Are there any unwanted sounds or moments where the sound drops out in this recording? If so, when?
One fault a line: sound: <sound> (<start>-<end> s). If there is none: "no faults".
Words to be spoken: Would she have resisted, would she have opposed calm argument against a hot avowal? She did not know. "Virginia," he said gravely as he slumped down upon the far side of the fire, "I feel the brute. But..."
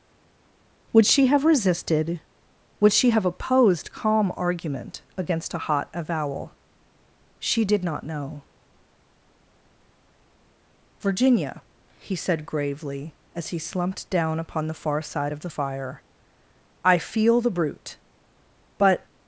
no faults